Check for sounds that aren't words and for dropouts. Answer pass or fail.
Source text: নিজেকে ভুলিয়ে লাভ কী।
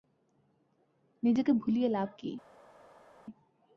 pass